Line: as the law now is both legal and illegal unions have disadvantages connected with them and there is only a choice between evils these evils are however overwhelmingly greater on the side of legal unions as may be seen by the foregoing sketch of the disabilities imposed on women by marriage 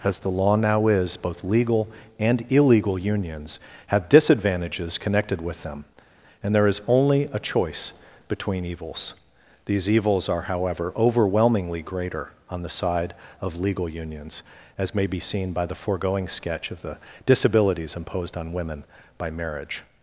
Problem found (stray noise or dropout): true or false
false